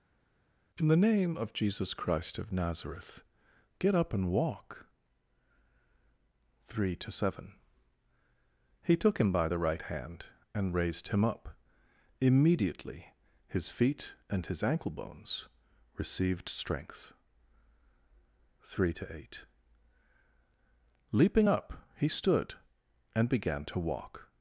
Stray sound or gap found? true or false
false